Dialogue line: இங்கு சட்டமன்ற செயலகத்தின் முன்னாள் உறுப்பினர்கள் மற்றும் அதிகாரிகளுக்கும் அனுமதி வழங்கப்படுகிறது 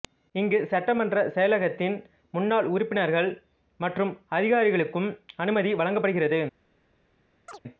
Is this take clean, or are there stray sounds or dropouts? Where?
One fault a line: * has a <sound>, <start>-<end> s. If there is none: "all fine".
* has a chirp, 7.5-7.6 s